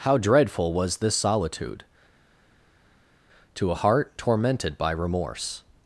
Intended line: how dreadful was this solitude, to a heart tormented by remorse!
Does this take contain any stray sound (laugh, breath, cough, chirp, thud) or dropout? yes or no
no